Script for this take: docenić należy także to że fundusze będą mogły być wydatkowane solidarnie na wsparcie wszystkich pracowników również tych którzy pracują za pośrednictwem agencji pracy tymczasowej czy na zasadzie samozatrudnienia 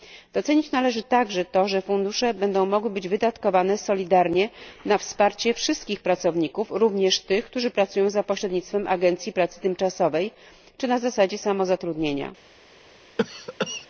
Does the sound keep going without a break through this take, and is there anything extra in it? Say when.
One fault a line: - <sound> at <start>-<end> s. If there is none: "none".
- cough at 13.2-13.9 s